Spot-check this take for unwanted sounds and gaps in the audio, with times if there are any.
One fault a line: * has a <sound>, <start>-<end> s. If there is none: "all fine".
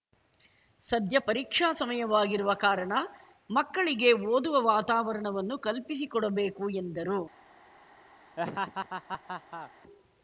* has a laugh, 8.4-9.7 s